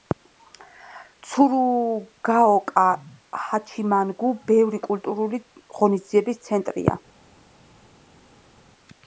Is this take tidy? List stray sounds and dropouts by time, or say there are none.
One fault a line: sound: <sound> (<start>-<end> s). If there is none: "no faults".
no faults